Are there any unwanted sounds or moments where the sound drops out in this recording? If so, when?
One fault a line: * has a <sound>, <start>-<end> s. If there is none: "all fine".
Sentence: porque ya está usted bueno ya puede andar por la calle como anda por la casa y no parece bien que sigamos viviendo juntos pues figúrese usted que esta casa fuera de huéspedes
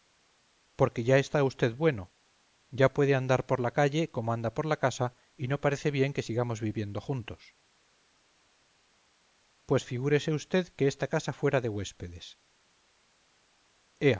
all fine